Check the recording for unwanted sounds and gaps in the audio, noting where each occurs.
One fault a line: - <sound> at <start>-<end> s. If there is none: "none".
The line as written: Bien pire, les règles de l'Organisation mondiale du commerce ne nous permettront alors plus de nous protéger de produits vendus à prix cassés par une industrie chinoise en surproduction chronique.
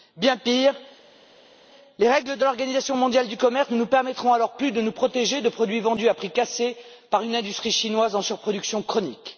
none